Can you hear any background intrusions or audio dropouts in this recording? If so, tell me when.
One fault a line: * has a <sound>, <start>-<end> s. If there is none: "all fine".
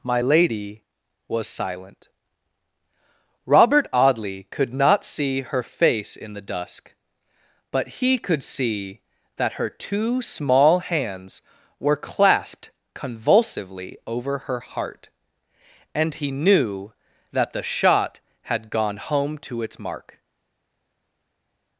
all fine